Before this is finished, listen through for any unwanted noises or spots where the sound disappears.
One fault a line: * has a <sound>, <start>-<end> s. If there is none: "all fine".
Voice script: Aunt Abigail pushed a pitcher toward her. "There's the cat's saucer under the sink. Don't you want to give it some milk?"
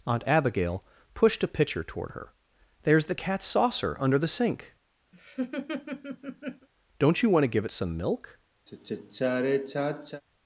* has a laugh, 5.1-6.7 s
* has a sigh, 8.7-10.2 s